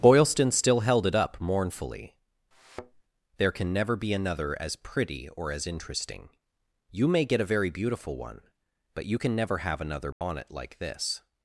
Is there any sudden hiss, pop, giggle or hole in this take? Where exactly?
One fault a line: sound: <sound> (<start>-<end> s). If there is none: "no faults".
sound: thud (2.5-3.0 s)
sound: dropout (10.1-10.2 s)